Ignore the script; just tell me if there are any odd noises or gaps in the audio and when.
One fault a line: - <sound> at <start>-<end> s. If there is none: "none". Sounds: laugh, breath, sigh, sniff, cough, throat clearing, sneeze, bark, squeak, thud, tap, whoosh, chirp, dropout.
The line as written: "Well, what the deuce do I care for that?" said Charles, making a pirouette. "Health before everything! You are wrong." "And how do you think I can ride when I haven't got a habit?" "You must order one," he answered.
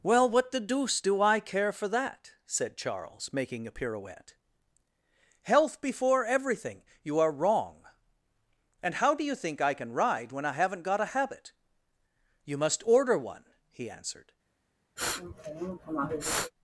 - sniff at 15.0-16.5 s